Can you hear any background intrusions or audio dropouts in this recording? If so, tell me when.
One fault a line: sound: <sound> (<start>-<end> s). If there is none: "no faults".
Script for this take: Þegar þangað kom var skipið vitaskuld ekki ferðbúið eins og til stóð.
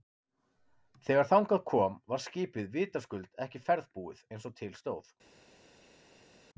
no faults